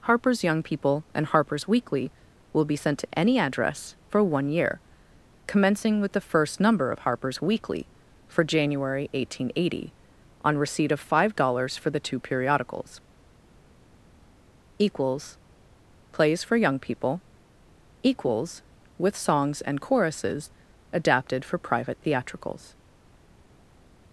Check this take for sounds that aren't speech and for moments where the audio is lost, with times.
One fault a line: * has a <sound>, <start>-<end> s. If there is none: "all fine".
all fine